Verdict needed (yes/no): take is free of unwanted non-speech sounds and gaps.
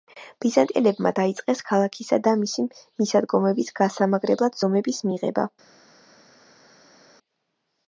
yes